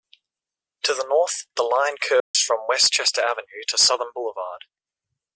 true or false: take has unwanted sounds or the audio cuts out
true